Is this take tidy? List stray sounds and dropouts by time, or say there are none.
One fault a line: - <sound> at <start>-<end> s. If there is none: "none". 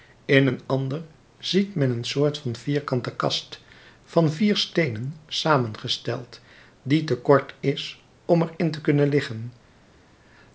none